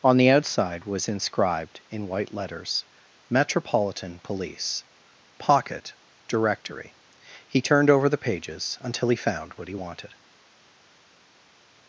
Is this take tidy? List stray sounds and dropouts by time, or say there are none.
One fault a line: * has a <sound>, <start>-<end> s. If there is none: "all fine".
all fine